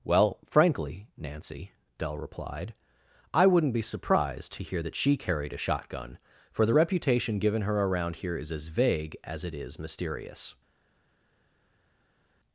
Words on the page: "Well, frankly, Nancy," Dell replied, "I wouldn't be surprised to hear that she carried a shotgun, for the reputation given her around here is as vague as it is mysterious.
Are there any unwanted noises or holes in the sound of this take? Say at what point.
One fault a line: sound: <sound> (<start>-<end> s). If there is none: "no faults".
no faults